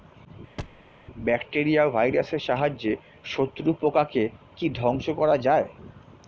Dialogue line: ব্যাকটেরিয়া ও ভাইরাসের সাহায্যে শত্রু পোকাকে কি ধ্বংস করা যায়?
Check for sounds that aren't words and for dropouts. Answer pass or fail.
fail